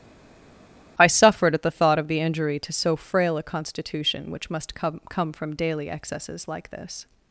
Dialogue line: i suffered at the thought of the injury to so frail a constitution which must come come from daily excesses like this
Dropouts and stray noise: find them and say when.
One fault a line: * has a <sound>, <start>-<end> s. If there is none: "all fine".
all fine